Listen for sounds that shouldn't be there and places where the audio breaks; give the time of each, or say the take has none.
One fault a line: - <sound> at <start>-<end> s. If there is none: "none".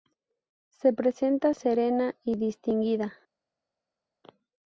none